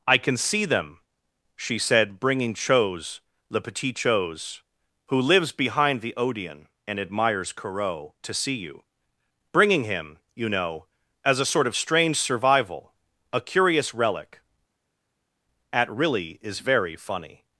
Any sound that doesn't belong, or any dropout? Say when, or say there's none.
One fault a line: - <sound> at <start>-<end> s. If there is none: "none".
none